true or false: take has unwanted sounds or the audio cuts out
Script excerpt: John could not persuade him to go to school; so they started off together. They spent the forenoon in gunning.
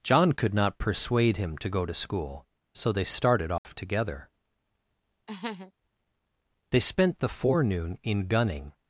true